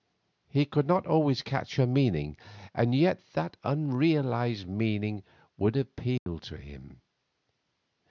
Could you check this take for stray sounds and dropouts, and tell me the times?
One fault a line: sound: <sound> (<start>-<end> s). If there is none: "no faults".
sound: dropout (6.2-6.3 s)